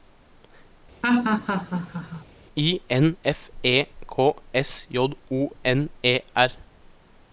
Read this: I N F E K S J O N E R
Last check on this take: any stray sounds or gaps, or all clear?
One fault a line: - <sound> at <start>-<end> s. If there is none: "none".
- laugh at 1.0-2.3 s